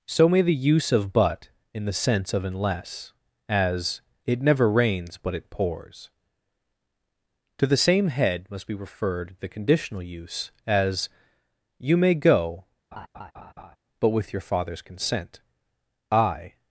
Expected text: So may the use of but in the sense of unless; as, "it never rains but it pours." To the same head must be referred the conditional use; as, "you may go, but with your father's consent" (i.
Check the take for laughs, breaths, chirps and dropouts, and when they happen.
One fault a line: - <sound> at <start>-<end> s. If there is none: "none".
- laugh at 12.9-13.8 s